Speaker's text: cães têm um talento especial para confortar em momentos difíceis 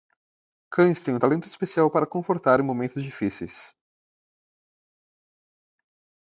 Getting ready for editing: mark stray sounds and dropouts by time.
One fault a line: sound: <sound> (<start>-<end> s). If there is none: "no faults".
no faults